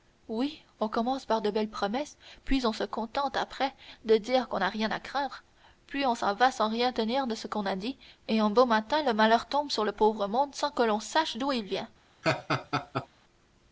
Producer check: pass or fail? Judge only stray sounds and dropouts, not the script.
fail